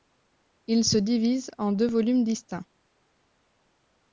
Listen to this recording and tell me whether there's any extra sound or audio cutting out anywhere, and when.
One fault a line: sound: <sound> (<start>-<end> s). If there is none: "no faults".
no faults